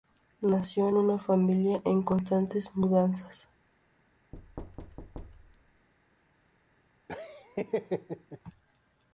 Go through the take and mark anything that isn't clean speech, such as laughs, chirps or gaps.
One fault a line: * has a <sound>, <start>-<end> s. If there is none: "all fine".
* has a thud, 4.3-5.9 s
* has a laugh, 7.1-8.4 s